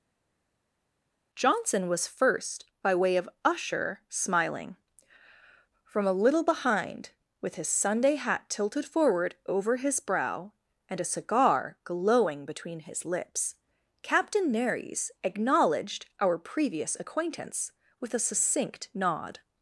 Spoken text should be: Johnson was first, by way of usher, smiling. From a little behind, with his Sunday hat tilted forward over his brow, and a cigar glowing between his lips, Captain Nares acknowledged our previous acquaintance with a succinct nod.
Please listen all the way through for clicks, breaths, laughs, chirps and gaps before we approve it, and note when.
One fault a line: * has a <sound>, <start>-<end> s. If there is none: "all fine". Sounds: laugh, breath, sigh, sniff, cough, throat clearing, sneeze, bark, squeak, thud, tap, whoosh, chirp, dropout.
all fine